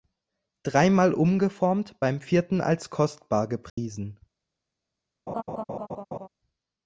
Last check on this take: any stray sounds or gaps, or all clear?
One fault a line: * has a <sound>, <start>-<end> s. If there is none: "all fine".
* has a dropout, 3.7-3.8 s
* has a laugh, 5.3-6.3 s